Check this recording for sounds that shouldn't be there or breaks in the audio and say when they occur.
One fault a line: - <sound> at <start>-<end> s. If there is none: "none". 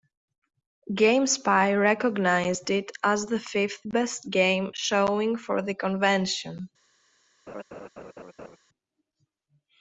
- laugh at 7.5-8.6 s